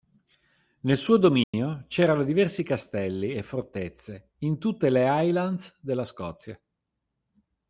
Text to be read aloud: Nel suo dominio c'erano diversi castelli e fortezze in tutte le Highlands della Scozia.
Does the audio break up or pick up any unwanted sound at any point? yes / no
yes